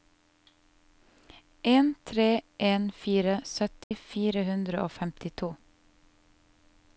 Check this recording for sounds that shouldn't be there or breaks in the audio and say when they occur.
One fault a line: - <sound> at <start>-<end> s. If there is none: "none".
- dropout at 3.8-3.9 s